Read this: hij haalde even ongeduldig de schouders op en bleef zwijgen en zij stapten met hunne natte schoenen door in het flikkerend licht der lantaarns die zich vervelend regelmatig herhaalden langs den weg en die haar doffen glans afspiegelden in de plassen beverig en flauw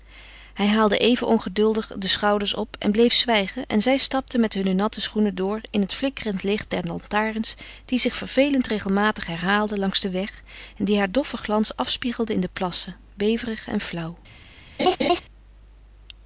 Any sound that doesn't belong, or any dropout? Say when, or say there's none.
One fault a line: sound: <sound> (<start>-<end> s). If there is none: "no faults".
sound: laugh (14.8-15.2 s)